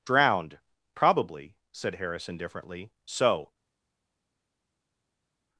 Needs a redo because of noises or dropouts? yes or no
no